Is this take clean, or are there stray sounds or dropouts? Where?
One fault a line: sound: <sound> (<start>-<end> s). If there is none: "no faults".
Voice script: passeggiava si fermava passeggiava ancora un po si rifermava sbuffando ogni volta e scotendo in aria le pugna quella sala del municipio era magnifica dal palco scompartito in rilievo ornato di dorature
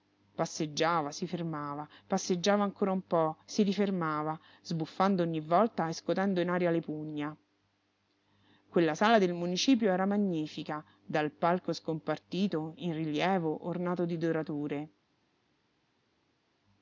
no faults